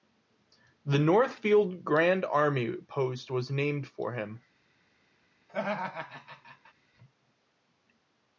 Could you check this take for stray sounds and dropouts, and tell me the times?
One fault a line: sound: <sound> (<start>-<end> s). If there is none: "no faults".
sound: laugh (5.5-6.7 s)